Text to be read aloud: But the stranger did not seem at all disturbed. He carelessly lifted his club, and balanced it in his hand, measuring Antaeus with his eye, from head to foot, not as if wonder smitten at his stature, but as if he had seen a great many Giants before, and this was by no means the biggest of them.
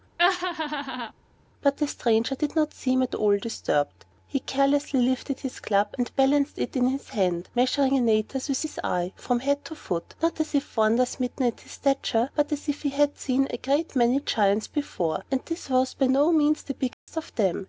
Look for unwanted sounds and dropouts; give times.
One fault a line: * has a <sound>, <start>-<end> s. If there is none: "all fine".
* has a laugh, 0.2-1.1 s
* has a dropout, 16.9-17.1 s